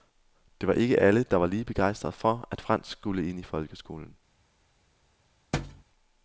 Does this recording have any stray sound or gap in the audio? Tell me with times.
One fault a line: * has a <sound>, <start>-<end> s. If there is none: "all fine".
* has a thud, 5.5-5.8 s